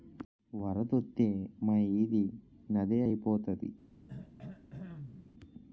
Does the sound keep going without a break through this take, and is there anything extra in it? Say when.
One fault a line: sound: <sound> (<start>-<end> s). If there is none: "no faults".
sound: throat clearing (4.1-5.3 s)